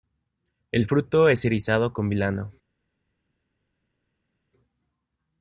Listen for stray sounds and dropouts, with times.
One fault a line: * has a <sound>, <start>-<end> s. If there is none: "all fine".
all fine